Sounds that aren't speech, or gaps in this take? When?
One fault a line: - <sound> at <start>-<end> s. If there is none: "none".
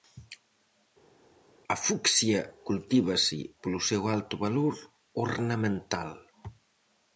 none